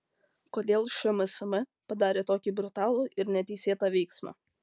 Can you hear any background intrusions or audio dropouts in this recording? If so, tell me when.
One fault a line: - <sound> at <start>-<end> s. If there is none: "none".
none